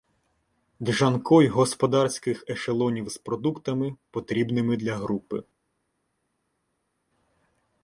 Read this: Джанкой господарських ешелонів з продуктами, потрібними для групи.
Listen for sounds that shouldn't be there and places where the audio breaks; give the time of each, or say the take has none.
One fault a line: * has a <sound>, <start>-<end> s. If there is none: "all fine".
all fine